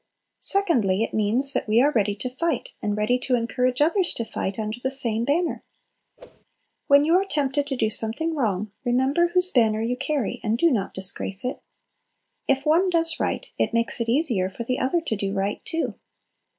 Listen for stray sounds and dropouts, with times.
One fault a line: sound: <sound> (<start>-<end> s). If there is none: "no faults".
sound: whoosh (6.2-6.4 s)